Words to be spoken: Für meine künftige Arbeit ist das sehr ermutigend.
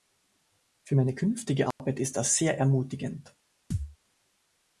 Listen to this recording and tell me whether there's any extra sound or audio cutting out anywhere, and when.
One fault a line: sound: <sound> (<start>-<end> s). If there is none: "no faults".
sound: dropout (1.7-1.8 s)
sound: thud (3.7-4.0 s)